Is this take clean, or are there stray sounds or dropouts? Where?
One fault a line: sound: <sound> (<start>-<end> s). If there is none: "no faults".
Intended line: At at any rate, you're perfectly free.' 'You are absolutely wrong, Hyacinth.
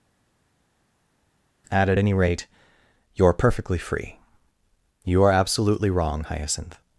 no faults